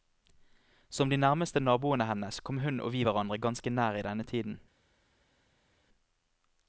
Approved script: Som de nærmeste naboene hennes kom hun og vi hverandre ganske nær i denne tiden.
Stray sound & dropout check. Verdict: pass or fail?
pass